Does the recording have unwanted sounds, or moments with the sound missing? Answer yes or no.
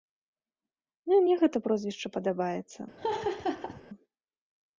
yes